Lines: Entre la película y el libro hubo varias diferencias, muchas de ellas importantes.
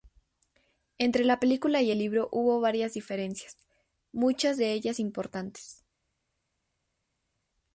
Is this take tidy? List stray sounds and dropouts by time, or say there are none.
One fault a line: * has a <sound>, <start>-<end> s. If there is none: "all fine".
all fine